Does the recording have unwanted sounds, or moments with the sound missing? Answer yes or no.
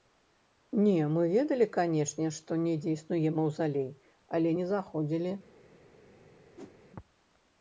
yes